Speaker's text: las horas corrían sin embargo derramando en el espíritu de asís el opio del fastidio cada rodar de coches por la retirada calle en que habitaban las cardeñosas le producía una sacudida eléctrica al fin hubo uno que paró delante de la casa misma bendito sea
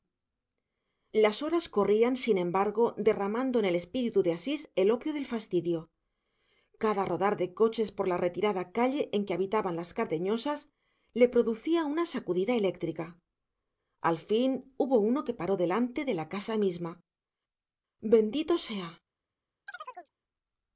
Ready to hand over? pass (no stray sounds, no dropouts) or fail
fail